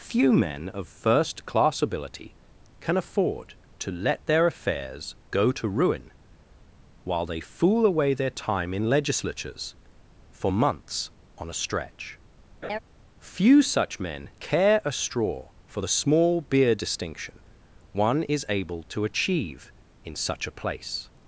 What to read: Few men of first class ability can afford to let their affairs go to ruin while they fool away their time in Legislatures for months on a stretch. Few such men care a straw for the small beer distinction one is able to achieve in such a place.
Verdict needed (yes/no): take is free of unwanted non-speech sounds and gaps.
no